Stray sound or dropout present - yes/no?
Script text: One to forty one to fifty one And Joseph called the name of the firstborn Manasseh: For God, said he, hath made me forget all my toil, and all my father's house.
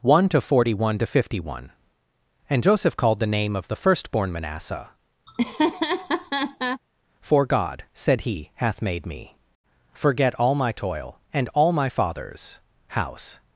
yes